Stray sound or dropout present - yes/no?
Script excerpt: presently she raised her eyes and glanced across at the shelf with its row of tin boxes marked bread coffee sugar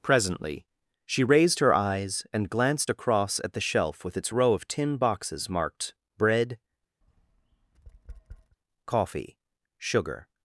yes